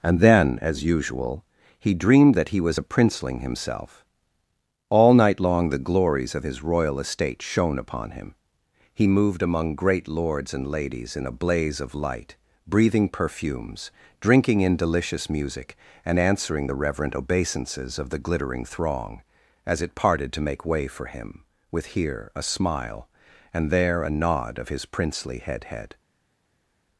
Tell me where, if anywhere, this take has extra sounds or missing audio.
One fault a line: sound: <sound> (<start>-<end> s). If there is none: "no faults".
no faults